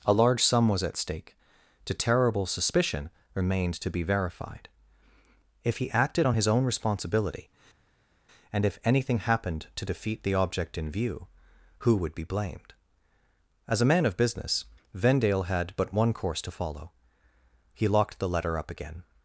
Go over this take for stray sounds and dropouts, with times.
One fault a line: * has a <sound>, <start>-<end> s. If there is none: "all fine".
all fine